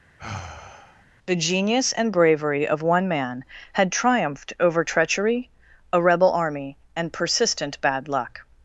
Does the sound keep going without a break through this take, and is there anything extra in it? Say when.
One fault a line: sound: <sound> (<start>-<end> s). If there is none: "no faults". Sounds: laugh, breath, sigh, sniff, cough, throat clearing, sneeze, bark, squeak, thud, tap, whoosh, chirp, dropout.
sound: sigh (0.2-1.0 s)